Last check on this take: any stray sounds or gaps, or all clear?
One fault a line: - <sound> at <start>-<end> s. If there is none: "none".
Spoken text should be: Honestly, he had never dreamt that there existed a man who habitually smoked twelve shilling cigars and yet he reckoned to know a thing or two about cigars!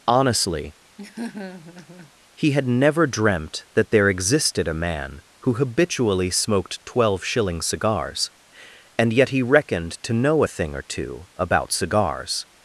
- laugh at 1.0-2.1 s